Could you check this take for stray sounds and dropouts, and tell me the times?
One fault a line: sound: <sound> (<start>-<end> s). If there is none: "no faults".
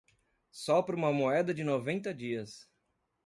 no faults